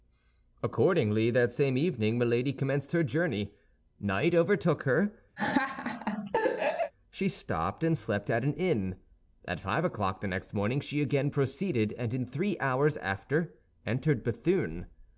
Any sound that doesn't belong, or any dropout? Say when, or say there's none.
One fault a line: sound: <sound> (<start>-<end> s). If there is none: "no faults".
sound: laugh (5.4-6.9 s)